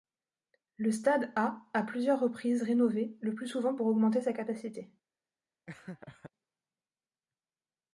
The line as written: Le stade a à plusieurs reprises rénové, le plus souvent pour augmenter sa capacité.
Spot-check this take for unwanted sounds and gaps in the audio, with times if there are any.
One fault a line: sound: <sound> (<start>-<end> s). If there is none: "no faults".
sound: laugh (5.7-6.3 s)